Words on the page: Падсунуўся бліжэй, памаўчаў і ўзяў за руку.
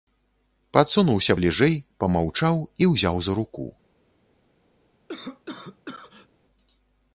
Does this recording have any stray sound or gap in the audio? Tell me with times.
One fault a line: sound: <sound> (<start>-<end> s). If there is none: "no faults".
sound: cough (5.1-6.3 s)